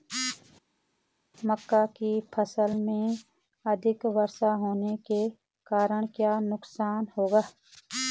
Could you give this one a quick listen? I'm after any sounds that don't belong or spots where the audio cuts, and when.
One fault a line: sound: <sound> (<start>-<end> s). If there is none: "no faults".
no faults